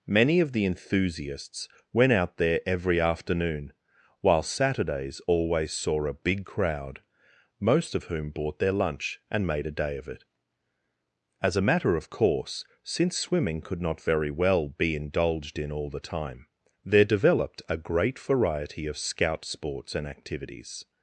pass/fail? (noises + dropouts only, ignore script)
pass